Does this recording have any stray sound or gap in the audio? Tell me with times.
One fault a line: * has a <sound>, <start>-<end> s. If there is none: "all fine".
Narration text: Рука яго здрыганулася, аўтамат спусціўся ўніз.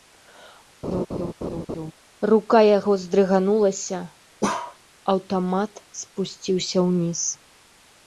* has a laugh, 0.8-1.9 s
* has a bark, 4.4-4.8 s